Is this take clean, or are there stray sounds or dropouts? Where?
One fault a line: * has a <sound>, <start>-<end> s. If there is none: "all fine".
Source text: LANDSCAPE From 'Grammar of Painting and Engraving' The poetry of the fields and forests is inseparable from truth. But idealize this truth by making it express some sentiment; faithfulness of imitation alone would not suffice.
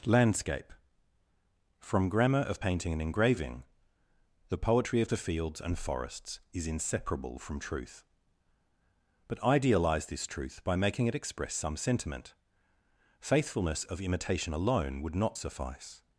all fine